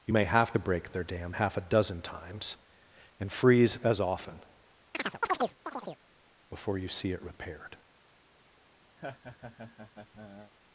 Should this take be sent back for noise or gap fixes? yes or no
yes